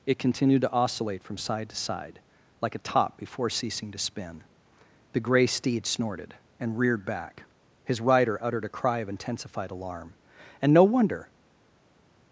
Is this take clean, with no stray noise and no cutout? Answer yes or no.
yes